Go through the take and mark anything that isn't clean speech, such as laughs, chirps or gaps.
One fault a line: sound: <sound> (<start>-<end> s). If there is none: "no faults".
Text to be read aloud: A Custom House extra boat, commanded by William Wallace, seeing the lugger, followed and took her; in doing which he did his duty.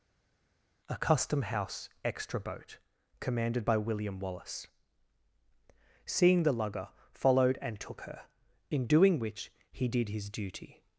no faults